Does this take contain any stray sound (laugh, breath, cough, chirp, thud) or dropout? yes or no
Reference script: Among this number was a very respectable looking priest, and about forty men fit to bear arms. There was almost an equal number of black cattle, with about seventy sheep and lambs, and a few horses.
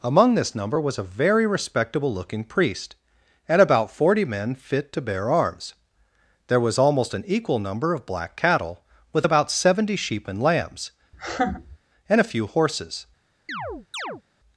yes